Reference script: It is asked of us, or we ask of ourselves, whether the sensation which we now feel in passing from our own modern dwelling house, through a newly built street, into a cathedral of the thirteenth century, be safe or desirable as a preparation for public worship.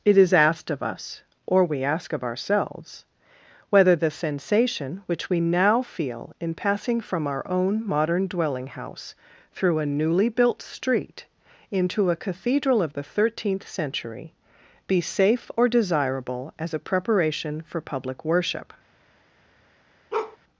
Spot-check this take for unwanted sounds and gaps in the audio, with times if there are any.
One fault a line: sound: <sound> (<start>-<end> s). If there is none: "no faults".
sound: bark (20.1-20.4 s)